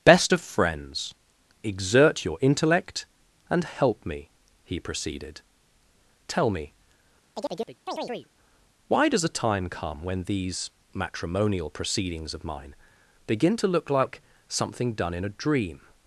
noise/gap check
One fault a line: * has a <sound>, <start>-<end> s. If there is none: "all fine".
* has a chirp, 7.3-8.3 s